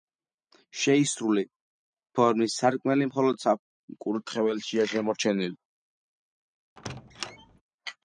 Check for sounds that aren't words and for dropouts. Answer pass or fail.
fail